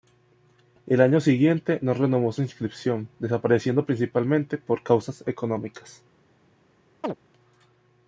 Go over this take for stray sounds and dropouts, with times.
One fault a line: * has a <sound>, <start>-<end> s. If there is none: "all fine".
* has a chirp, 7.0-7.1 s